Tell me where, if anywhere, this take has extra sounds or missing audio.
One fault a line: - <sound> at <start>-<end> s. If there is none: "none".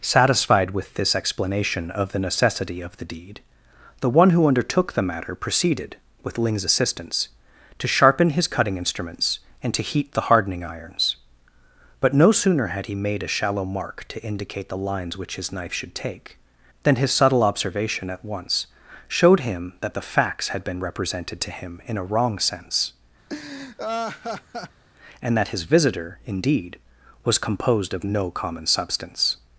- laugh at 23.3-24.8 s